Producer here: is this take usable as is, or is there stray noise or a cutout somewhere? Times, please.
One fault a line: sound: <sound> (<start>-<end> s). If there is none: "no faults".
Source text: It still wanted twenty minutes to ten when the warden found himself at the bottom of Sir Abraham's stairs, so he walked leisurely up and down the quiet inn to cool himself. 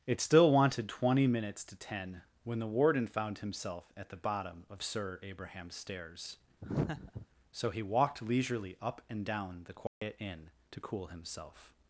sound: laugh (6.6-7.3 s)
sound: dropout (9.9-10.0 s)